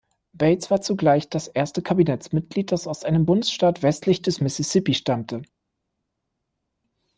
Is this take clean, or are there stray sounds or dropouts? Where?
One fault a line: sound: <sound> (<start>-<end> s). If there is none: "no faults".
no faults